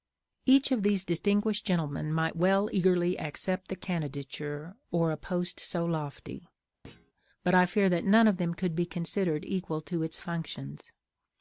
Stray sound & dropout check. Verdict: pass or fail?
fail